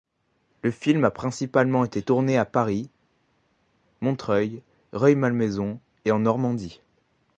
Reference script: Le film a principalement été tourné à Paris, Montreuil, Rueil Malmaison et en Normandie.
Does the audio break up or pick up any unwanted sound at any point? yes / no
no